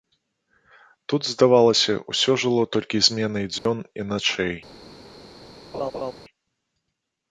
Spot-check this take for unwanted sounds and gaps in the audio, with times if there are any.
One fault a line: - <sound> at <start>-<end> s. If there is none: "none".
- dropout at 3.6-3.7 s
- laugh at 5.7-6.1 s